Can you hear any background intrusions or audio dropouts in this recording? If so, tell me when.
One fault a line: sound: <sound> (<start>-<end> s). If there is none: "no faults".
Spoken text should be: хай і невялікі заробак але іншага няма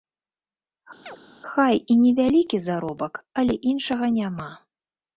sound: chirp (1.0-1.2 s)